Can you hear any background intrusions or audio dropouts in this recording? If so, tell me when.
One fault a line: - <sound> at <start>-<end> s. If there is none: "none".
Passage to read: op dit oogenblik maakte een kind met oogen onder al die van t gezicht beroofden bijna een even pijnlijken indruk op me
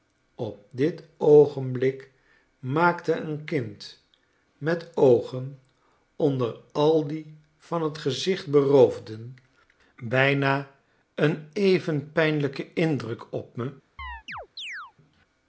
- chirp at 14.0-14.9 s